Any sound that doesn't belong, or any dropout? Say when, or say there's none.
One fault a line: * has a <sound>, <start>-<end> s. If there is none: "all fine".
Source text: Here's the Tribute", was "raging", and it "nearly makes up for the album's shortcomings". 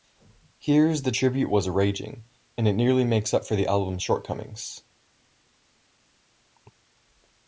all fine